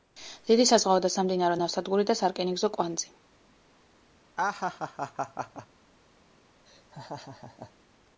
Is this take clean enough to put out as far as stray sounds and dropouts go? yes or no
no